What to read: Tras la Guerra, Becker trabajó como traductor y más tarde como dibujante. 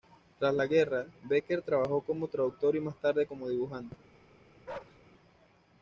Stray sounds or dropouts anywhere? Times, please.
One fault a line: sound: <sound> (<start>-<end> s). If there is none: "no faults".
sound: bark (4.7-5.0 s)